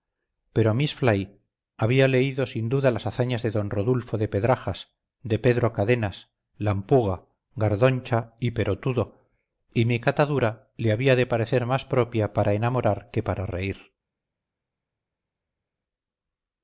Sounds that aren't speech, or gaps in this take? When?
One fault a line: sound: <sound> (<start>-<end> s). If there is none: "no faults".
no faults